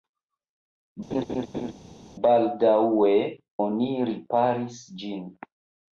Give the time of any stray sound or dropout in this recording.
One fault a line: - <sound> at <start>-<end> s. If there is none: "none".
- laugh at 1.1-1.7 s